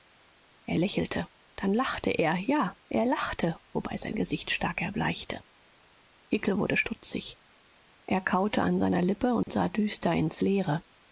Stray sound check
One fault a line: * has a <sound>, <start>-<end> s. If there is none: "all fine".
* has a dropout, 9.4-9.5 s